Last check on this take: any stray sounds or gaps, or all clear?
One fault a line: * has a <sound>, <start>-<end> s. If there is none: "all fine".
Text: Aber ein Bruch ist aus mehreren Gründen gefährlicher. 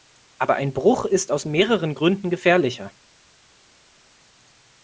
all fine